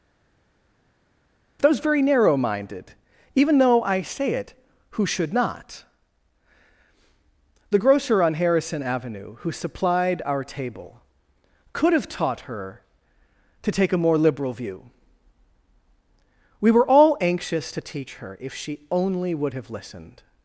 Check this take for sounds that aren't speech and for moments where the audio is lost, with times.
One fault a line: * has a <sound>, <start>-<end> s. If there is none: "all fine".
all fine